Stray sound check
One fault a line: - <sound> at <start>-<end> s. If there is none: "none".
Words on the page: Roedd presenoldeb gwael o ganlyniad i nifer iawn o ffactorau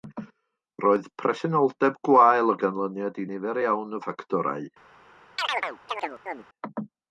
- chirp at 5.4-6.5 s